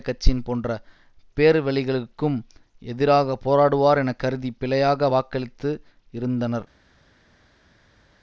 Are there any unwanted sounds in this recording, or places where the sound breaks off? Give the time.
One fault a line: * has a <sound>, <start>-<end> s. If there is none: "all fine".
all fine